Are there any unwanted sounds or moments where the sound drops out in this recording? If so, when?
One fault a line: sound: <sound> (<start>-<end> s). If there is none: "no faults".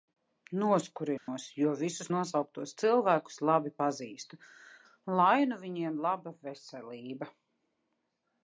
sound: dropout (1.2-1.3 s)